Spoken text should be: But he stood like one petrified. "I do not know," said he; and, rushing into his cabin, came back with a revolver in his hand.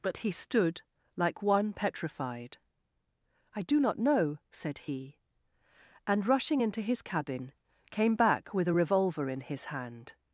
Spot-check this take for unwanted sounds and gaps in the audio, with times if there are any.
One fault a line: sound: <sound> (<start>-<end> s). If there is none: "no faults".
no faults